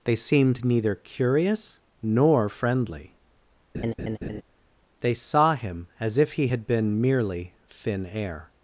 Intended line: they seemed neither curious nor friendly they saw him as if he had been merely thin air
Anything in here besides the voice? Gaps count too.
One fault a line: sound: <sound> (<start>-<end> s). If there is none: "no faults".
sound: laugh (3.7-4.4 s)